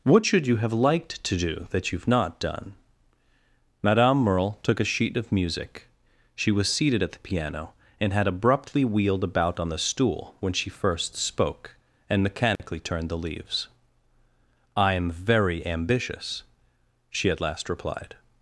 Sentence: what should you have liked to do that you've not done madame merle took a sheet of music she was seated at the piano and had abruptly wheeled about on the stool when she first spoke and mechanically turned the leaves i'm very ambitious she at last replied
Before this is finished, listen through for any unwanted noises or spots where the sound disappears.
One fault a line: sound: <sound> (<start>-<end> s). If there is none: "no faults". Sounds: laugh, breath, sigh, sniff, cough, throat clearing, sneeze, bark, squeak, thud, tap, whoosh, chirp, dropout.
sound: dropout (12.6-12.6 s)